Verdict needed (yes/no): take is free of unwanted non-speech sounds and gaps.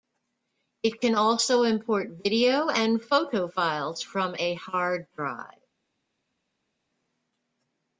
yes